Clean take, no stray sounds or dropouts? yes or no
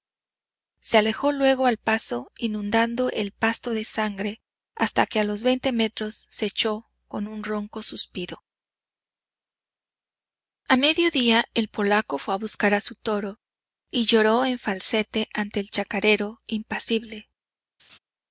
no